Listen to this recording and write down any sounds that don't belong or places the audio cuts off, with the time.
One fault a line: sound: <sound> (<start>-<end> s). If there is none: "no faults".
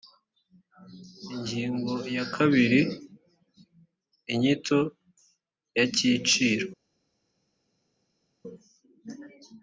no faults